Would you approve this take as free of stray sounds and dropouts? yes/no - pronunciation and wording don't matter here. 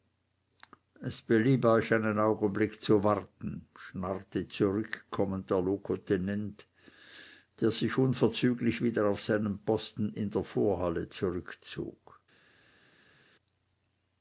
yes